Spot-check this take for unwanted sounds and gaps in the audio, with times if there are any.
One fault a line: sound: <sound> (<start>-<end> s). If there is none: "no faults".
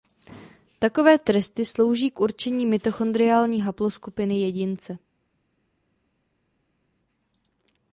no faults